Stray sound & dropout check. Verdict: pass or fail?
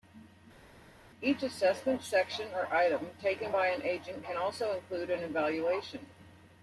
pass